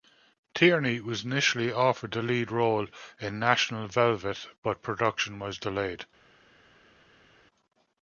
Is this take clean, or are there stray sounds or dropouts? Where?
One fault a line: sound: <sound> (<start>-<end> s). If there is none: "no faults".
no faults